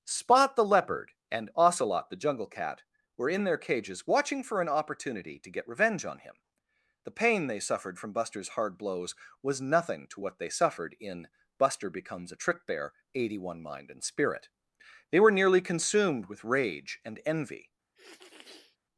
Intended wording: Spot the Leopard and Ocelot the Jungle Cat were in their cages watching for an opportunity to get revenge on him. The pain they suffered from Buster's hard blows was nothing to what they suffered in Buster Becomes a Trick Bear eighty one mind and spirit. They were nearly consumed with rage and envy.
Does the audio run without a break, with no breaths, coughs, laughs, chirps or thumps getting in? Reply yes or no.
no